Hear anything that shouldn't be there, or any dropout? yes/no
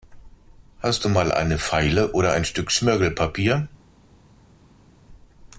no